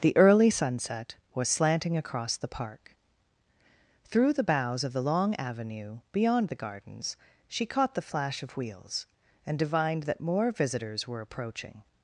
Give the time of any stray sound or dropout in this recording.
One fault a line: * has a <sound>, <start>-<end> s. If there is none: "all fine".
all fine